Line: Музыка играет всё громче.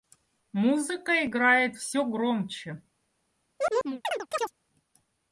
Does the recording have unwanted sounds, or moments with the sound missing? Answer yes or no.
yes